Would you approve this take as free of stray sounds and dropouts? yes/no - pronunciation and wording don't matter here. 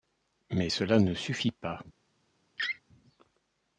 no